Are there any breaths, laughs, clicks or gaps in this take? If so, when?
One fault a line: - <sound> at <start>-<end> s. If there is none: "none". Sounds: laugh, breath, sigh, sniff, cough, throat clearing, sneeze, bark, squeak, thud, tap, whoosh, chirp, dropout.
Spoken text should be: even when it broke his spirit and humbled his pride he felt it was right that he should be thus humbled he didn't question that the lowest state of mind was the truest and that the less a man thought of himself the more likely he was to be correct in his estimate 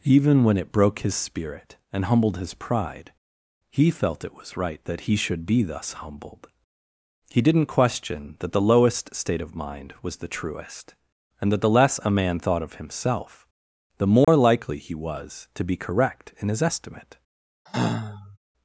- dropout at 14.2-14.3 s
- sigh at 17.7-18.4 s